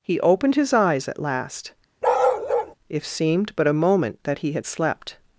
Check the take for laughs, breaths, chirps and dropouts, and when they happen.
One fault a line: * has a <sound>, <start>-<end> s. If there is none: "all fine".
* has a bark, 2.0-2.8 s